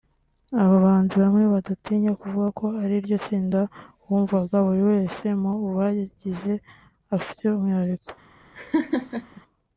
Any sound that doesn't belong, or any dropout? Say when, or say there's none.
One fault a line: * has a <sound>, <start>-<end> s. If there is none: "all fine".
* has a laugh, 8.5-9.4 s